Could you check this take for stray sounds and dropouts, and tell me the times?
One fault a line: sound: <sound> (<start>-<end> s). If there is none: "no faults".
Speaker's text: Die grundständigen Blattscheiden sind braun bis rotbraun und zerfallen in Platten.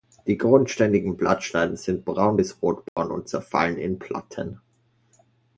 sound: dropout (2.9-3.0 s)